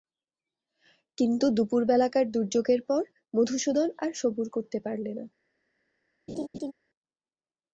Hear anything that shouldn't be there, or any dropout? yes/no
yes